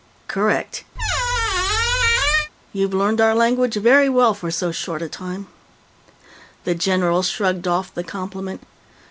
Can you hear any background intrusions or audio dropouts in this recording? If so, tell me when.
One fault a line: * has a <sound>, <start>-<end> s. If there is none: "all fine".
* has a squeak, 0.9-2.5 s